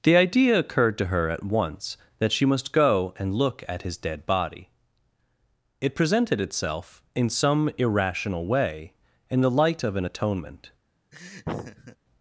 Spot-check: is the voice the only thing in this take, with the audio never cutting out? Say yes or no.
no